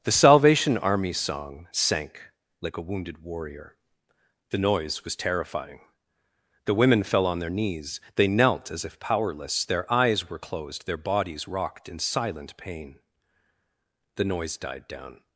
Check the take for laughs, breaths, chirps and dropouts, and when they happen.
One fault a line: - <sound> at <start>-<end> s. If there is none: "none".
none